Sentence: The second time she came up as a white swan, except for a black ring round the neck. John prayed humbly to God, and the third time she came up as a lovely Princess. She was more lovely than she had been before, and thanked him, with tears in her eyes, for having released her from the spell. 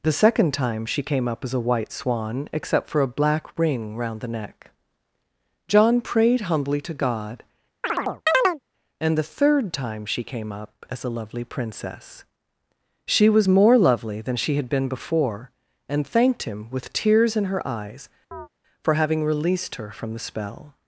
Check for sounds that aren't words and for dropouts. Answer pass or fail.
fail